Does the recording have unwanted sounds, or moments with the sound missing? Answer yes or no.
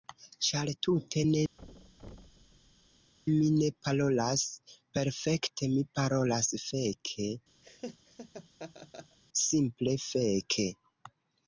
yes